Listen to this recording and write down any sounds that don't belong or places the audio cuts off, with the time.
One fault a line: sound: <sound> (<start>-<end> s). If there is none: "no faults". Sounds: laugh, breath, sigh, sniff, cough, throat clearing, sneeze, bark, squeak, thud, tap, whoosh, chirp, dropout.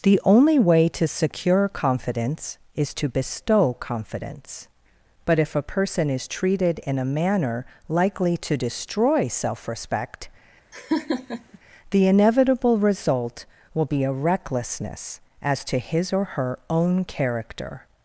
sound: laugh (10.7-11.6 s)